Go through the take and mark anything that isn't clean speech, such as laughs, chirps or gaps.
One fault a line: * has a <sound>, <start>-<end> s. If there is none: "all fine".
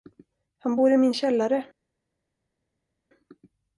all fine